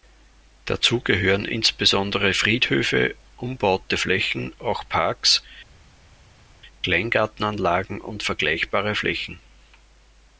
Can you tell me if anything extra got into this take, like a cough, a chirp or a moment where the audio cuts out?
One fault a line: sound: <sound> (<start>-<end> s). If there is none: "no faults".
no faults